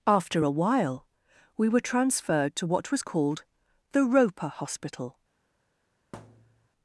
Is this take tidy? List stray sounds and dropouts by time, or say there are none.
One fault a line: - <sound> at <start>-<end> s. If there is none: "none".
- thud at 6.1-6.7 s